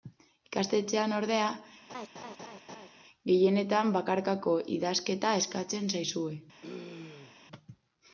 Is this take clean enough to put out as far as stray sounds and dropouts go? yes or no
no